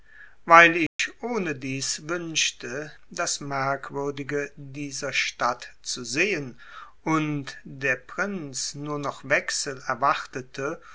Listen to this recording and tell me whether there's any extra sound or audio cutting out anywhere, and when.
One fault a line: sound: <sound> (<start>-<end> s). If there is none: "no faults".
sound: dropout (0.9-1.0 s)